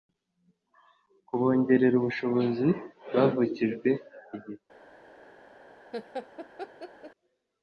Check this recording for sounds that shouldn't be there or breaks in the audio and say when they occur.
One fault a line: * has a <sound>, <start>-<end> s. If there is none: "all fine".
* has a laugh, 5.9-7.1 s